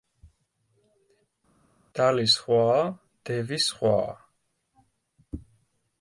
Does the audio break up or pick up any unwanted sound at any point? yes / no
no